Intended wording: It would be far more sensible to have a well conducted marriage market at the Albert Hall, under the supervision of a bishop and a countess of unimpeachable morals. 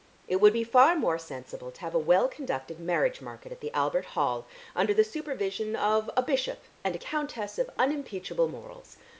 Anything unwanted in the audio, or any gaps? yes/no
no